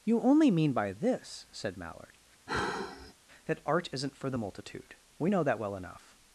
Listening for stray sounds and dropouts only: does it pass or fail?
fail